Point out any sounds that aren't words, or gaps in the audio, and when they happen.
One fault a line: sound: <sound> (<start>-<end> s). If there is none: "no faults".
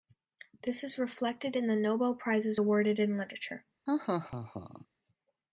sound: laugh (3.9-4.9 s)